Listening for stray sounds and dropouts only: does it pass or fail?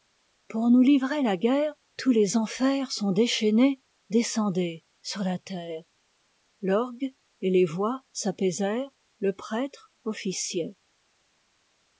pass